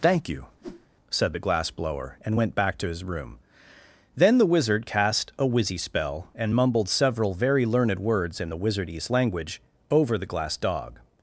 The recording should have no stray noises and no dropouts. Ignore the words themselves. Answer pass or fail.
fail